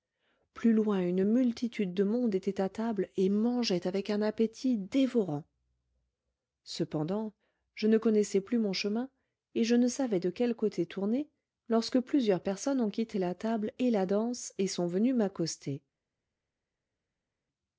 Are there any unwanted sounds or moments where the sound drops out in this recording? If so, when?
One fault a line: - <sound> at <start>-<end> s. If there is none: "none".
none